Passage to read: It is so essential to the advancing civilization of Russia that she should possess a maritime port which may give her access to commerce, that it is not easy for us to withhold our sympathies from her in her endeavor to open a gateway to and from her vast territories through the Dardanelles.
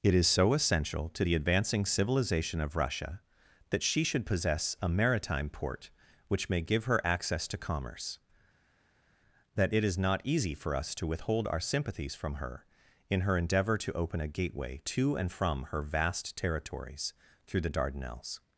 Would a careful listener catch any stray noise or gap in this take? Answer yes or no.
no